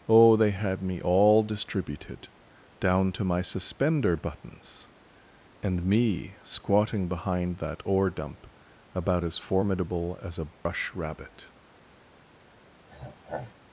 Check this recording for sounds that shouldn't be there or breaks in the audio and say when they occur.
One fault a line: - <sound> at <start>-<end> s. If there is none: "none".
- dropout at 10.5-10.7 s
- throat clearing at 12.9-13.5 s